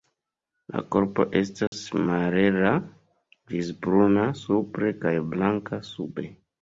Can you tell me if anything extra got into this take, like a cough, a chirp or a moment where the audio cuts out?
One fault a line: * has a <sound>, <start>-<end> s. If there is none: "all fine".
* has a dropout, 1.7-1.7 s